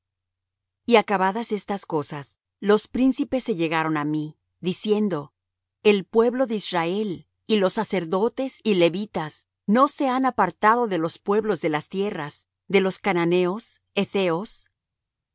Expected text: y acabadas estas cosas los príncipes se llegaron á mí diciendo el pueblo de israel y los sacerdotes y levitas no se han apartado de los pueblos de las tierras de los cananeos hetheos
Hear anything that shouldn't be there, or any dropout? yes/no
no